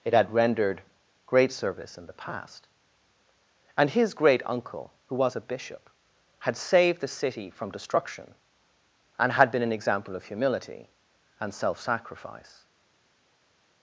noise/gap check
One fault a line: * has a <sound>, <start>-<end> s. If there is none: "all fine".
all fine